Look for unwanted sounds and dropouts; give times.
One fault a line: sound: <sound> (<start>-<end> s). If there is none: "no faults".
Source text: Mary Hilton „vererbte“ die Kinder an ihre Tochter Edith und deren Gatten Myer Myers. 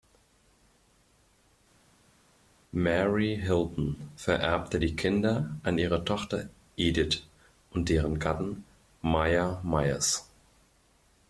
no faults